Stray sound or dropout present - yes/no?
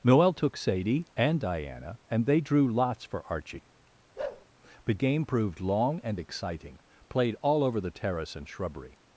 yes